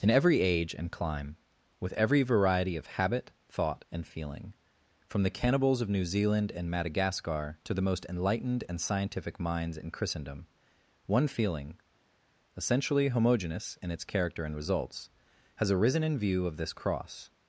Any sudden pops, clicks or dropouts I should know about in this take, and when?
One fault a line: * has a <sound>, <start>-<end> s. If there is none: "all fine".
all fine